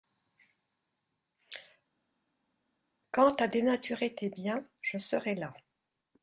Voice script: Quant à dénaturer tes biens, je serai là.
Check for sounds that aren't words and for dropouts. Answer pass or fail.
pass